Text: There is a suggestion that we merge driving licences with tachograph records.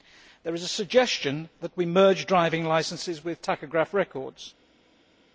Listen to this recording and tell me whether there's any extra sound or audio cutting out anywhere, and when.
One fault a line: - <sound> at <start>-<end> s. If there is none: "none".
none